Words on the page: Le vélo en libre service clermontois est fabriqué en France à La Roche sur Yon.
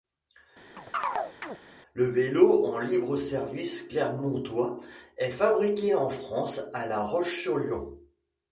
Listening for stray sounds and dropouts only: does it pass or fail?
fail